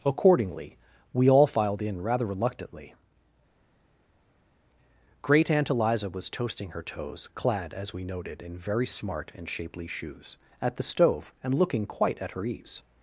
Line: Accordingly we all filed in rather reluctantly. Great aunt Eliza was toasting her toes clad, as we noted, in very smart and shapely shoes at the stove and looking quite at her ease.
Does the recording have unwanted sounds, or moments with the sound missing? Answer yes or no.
no